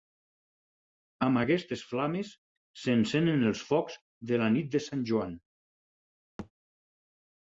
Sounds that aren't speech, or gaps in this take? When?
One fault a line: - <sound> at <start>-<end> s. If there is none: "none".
- thud at 6.4-6.5 s